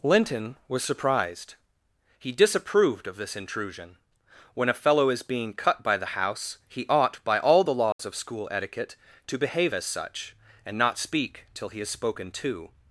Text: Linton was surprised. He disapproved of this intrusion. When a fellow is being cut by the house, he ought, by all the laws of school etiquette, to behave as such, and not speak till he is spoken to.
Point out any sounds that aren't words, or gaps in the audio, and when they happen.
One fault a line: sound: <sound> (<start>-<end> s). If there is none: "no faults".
sound: dropout (7.9-8.0 s)